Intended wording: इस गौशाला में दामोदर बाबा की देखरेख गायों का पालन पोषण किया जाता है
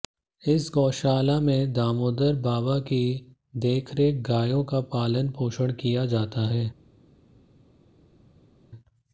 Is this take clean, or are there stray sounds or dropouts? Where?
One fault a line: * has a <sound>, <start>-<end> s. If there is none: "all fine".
all fine